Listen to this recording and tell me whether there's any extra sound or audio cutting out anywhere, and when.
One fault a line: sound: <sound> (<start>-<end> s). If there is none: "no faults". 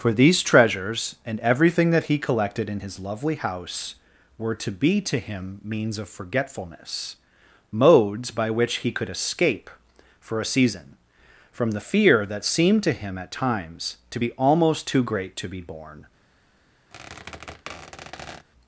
sound: squeak (16.9-18.5 s)